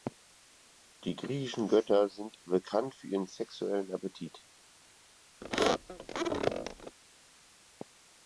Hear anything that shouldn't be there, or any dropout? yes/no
yes